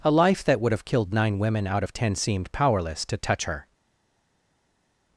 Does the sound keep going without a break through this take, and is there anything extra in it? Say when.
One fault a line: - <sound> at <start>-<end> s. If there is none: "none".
none